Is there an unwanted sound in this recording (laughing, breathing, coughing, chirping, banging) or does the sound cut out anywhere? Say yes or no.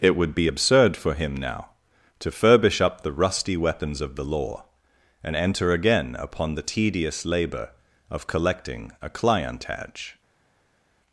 no